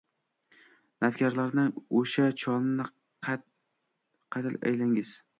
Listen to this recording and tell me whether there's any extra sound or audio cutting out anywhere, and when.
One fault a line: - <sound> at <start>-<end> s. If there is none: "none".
none